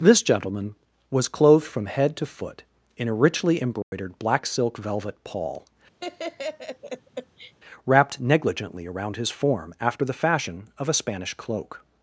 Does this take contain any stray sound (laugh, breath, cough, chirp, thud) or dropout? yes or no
yes